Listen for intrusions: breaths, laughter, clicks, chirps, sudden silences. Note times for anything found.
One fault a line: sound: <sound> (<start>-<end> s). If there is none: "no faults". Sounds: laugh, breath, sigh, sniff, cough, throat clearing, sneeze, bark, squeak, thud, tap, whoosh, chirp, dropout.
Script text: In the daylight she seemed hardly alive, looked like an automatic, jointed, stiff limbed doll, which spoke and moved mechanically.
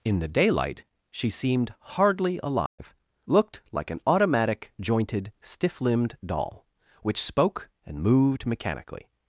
sound: dropout (2.7-2.8 s)